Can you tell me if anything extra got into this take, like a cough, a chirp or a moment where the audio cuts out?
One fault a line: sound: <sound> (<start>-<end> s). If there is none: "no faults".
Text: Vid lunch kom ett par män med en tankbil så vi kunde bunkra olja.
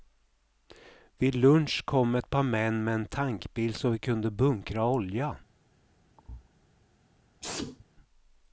sound: thud (6.2-6.5 s)
sound: sneeze (7.4-7.8 s)